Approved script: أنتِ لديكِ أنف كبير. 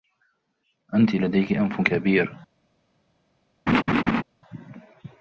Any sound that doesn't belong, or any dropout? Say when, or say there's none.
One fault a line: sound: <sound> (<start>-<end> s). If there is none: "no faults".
sound: laugh (3.7-4.2 s)